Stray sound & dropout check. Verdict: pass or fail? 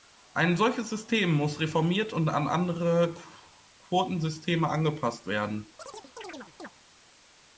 fail